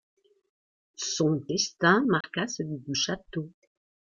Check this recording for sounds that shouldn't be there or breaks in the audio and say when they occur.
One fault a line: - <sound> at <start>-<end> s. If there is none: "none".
- dropout at 2.2-2.2 s